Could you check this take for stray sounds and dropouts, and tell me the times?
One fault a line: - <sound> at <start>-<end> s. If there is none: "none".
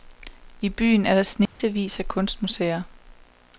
- dropout at 1.5-1.6 s